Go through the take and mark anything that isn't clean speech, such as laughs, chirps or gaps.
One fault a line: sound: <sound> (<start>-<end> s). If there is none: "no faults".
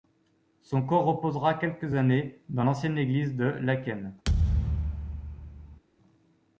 sound: thud (4.2-5.8 s)